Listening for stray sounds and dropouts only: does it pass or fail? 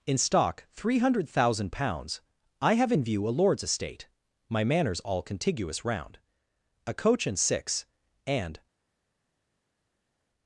pass